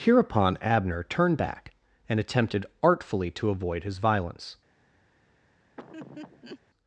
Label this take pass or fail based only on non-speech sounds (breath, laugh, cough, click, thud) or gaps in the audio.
fail